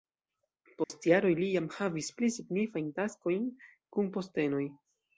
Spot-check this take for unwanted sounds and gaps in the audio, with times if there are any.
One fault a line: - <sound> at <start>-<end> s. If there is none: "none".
- dropout at 0.8-0.9 s